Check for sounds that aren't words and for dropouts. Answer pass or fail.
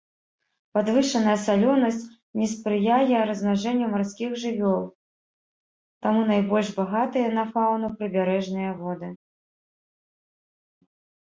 pass